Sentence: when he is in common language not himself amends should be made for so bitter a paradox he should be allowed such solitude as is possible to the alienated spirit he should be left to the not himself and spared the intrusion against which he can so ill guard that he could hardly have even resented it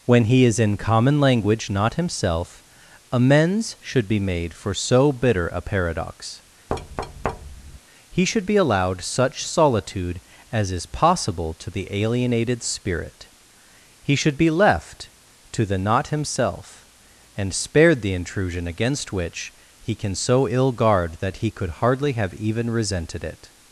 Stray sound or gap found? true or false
true